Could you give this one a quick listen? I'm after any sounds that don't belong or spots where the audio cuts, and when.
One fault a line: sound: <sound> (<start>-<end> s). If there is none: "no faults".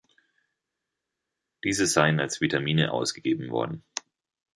no faults